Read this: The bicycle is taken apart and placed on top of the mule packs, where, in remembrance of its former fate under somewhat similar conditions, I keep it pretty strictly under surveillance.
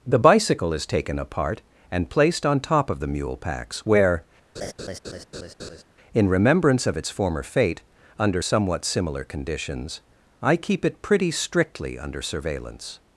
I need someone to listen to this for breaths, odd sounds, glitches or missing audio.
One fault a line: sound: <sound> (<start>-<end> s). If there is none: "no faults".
sound: laugh (4.5-5.8 s)